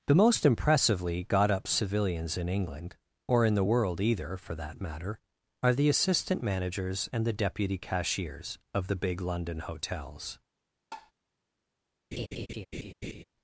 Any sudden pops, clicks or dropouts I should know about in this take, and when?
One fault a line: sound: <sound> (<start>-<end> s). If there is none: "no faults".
sound: tap (10.9-11.1 s)
sound: laugh (12.1-13.2 s)